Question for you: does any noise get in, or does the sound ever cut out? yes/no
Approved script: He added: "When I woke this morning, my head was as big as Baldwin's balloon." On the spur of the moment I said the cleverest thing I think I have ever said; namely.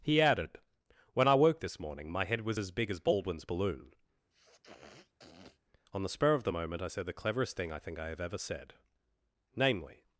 yes